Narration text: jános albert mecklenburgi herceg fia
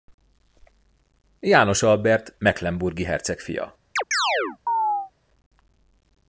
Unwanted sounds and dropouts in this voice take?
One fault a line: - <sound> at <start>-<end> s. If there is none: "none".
- chirp at 4.0-5.1 s